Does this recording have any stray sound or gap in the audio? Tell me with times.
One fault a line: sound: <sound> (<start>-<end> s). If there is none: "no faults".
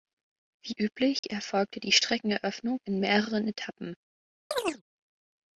sound: dropout (1.2-1.2 s)
sound: chirp (4.5-4.8 s)